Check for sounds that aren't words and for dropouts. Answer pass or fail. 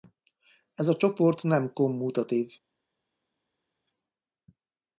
pass